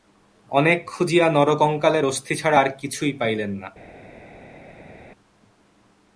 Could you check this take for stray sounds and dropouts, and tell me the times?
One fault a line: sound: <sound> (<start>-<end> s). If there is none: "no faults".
no faults